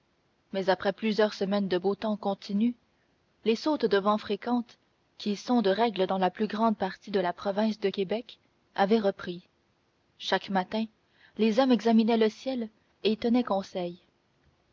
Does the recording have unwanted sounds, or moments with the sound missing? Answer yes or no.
no